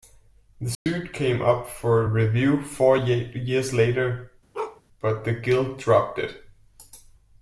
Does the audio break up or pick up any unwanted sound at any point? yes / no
yes